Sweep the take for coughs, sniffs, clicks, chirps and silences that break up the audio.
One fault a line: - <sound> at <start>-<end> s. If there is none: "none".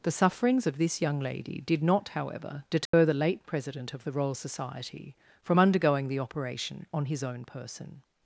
- dropout at 2.9-2.9 s